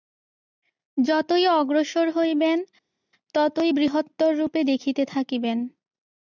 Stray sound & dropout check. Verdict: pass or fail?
pass